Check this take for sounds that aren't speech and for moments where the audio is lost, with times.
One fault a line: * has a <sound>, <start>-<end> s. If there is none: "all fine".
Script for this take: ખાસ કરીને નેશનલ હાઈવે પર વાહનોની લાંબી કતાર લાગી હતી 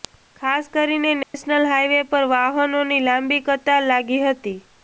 * has a dropout, 1.2-1.3 s